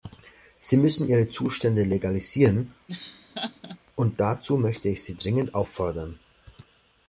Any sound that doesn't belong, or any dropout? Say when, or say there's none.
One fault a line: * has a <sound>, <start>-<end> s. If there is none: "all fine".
* has a laugh, 2.9-3.8 s